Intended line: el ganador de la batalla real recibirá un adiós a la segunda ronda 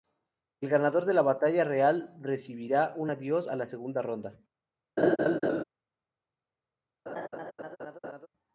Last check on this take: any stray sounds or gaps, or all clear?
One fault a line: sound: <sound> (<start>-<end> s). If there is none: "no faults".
sound: laugh (5.0-5.6 s)
sound: laugh (7.1-8.3 s)